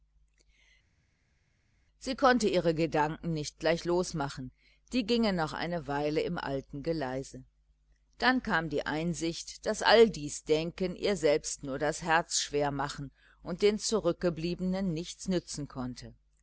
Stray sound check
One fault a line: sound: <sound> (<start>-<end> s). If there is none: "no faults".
no faults